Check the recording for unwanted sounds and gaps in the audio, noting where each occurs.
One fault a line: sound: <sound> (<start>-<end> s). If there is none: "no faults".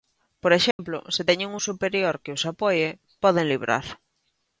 sound: dropout (0.7-0.8 s)